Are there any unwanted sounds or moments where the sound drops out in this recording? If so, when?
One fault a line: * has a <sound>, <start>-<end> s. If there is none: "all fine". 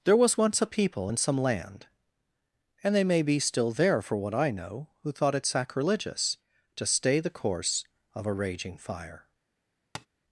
* has a tap, 9.9-10.1 s